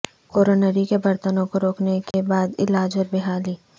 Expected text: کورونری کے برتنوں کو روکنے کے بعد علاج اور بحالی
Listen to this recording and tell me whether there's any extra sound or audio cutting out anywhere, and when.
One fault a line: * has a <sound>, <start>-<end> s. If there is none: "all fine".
* has a dropout, 2.1-2.1 s